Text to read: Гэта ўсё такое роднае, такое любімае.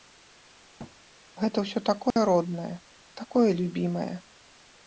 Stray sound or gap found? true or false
true